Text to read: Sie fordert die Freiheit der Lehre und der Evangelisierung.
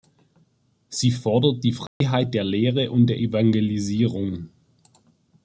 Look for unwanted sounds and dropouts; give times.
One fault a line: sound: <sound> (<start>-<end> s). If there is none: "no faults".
sound: dropout (1.9-2.0 s)